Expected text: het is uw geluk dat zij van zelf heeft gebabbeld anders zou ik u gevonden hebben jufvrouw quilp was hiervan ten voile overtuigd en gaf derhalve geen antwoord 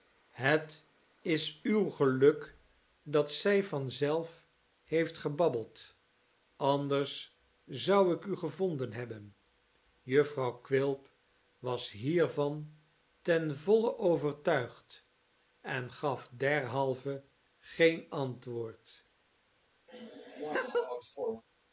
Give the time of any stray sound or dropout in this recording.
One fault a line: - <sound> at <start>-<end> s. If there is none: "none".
- laugh at 19.9-21.4 s